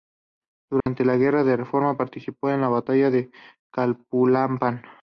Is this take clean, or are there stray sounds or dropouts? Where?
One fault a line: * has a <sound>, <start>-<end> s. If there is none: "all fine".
* has a dropout, 0.8-0.9 s